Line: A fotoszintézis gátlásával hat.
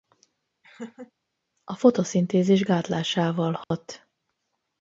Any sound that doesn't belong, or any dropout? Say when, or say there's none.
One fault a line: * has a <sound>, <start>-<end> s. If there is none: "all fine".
* has a laugh, 0.6-1.1 s
* has a dropout, 3.6-3.7 s